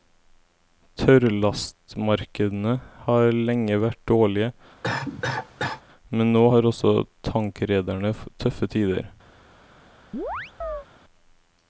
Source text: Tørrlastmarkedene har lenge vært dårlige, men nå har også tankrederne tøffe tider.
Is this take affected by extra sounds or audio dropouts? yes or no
yes